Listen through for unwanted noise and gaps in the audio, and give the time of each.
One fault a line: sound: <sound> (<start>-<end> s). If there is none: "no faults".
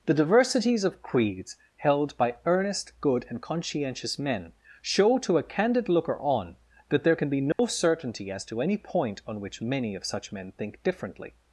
sound: dropout (7.5-7.6 s)